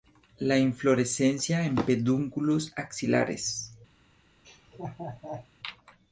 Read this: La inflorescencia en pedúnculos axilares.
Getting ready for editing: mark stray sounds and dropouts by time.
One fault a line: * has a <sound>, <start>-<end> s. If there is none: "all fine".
* has a laugh, 4.4-5.5 s